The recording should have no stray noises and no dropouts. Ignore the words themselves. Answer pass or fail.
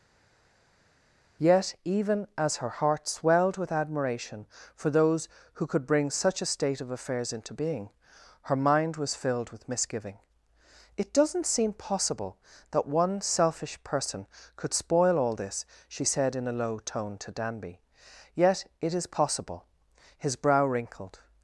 pass